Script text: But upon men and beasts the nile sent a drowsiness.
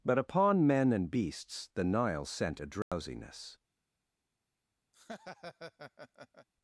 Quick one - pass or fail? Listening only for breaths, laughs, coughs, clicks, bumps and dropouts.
fail